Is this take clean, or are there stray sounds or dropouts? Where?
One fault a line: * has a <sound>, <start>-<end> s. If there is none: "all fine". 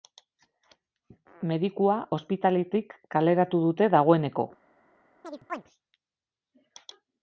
* has a chirp, 5.2-5.6 s